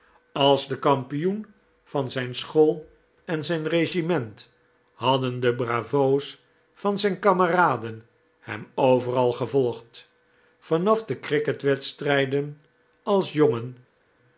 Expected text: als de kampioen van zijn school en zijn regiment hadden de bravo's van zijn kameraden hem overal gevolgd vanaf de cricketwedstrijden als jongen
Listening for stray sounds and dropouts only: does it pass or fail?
pass